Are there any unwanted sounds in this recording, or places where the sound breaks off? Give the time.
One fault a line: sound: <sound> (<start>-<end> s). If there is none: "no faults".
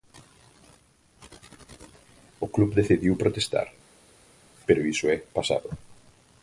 no faults